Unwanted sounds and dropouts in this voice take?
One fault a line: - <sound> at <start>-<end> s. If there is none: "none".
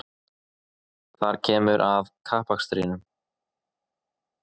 none